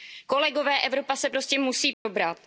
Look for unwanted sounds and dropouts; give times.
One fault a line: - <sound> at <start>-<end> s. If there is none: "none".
- dropout at 1.9-2.1 s